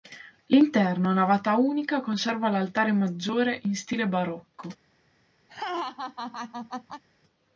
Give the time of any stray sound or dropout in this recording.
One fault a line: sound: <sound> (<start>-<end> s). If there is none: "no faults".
sound: laugh (5.5-7.0 s)